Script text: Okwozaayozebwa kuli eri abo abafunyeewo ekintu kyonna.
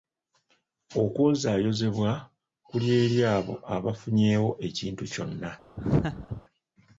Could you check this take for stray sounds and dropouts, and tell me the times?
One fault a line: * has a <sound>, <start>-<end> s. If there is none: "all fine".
* has a laugh, 5.8-6.4 s